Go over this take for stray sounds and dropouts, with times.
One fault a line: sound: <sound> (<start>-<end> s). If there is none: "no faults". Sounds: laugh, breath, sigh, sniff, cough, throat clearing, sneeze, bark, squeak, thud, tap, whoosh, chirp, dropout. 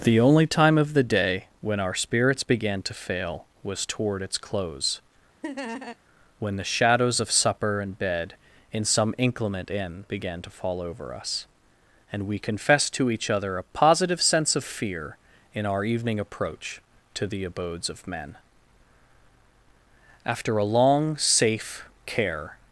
sound: laugh (5.4-6.0 s)